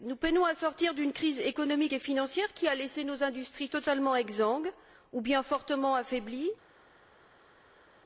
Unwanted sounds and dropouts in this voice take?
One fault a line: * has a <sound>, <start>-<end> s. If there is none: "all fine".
all fine